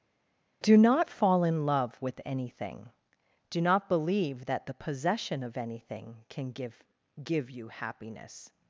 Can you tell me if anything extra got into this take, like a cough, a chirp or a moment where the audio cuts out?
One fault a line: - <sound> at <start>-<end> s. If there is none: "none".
none